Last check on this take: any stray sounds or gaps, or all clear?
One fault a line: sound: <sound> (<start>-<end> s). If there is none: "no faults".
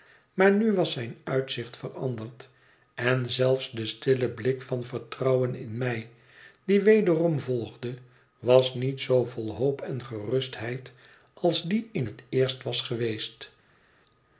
no faults